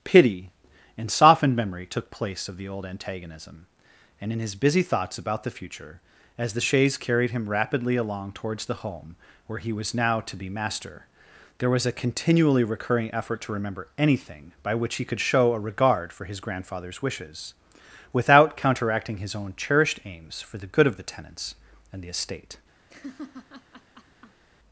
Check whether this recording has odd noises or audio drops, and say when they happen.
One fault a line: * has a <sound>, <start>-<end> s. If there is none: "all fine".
* has a laugh, 22.9-24.4 s